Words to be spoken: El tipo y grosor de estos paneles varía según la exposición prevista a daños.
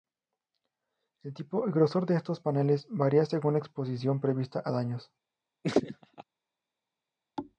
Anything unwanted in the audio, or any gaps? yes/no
yes